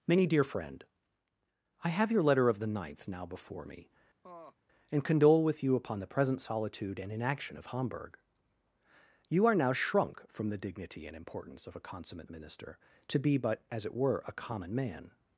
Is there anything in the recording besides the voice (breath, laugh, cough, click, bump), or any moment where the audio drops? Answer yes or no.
yes